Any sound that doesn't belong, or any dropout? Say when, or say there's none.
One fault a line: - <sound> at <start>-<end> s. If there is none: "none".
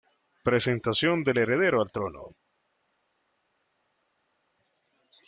none